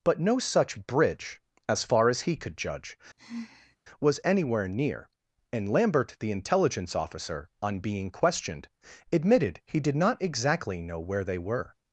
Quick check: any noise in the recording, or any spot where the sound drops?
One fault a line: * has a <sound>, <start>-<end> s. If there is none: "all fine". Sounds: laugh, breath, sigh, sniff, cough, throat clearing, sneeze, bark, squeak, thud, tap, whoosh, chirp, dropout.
* has a sigh, 3.2-3.8 s